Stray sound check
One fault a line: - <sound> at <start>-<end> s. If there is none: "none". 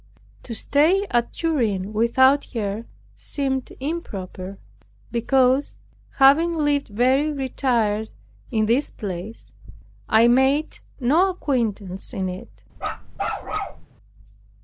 - bark at 12.8-13.9 s